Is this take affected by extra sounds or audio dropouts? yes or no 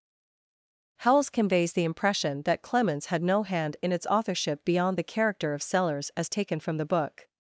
no